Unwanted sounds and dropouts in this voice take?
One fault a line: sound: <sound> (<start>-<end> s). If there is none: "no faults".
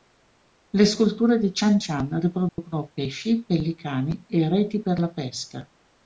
sound: dropout (2.5-2.6 s)